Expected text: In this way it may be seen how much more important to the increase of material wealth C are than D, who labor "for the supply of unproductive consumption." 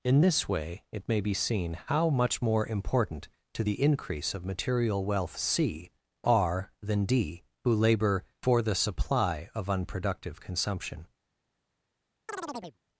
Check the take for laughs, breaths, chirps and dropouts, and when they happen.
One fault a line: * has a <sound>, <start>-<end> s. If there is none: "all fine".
* has a chirp, 12.3-12.8 s